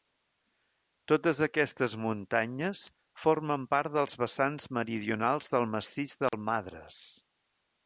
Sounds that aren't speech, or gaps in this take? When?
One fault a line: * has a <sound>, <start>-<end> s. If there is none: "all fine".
* has a dropout, 6.3-6.3 s